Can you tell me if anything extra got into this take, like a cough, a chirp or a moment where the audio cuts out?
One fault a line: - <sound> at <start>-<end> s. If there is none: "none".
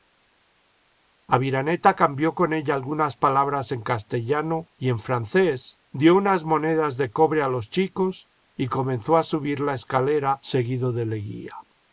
none